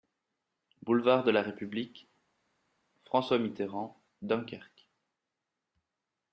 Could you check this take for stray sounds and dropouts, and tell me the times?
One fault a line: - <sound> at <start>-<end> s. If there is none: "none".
none